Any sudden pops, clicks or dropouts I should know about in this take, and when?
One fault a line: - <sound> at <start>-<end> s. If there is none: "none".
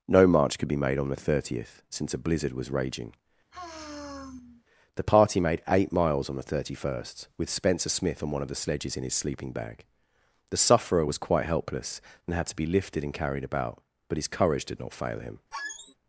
- sigh at 3.5-4.6 s
- squeak at 15.5-15.9 s